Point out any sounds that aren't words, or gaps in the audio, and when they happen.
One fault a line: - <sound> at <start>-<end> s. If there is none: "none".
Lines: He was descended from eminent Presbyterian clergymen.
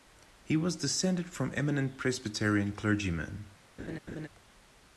- laugh at 3.8-4.3 s